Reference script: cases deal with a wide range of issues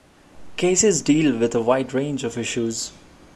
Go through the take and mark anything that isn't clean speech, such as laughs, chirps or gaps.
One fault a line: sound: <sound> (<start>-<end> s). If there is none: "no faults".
no faults